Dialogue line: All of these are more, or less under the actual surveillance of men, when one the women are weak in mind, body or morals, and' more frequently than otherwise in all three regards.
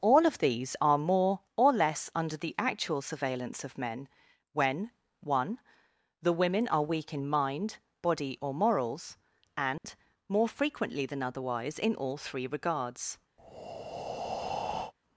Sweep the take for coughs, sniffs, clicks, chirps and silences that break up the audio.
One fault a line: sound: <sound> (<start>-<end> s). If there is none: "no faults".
sound: dropout (9.8-9.8 s)
sound: breath (13.4-14.9 s)